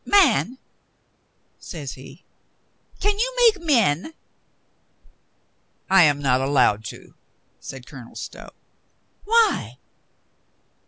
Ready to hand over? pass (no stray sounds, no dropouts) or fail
pass